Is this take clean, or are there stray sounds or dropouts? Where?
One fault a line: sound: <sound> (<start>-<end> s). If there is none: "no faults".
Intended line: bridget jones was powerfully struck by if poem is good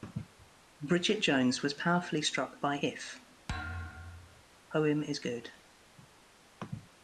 sound: thud (3.5-4.4 s)